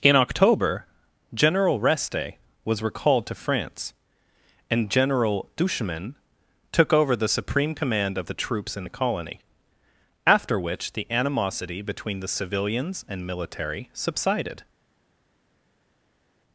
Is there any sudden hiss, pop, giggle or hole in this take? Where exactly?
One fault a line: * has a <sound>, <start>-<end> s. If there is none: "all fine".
all fine